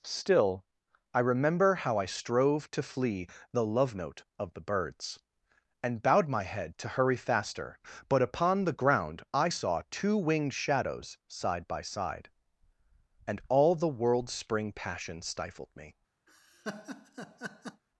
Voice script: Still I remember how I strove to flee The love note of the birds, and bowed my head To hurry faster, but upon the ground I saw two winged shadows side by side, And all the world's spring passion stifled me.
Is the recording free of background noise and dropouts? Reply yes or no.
no